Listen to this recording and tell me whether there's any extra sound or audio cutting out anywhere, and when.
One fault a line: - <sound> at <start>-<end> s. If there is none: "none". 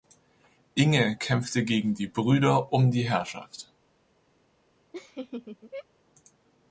- laugh at 4.9-5.9 s